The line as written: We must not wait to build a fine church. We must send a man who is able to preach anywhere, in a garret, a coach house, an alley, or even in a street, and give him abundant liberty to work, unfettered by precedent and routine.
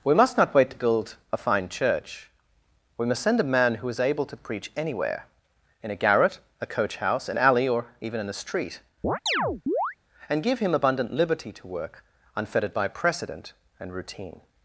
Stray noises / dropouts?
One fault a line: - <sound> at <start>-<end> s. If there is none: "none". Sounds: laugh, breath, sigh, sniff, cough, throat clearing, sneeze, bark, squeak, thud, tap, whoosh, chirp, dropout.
- chirp at 9.0-10.0 s